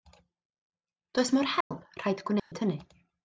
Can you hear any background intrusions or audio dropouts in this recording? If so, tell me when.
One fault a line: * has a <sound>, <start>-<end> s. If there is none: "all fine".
* has a dropout, 1.6-1.7 s
* has a dropout, 2.4-2.5 s